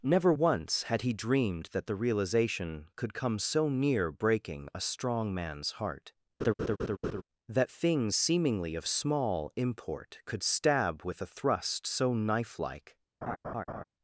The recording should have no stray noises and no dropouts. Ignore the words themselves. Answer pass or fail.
fail